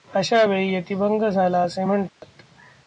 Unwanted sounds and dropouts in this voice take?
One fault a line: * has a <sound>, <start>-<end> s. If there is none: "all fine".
* has a dropout, 2.1-2.2 s